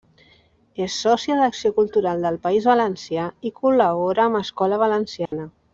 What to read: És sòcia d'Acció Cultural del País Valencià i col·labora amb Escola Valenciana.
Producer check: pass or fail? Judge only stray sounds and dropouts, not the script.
fail